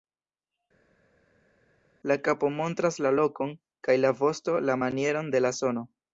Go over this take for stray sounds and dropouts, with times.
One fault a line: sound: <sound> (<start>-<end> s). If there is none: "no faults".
no faults